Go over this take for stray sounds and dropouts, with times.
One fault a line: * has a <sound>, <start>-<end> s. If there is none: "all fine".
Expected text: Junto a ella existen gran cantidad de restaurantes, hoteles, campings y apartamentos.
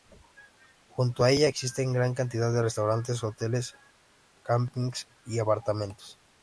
all fine